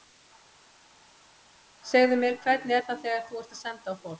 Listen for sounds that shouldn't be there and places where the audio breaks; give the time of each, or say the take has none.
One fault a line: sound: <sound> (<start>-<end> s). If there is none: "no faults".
no faults